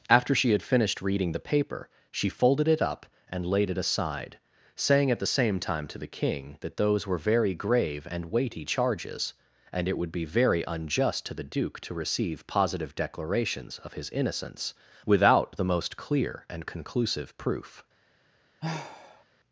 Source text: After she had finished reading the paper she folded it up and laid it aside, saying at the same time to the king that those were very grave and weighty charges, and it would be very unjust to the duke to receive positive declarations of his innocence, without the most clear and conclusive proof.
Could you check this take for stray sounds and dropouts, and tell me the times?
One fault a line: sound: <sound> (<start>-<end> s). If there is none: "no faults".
sound: sigh (18.6-19.2 s)